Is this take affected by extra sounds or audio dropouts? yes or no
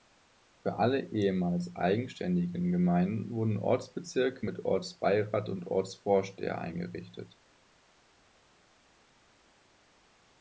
no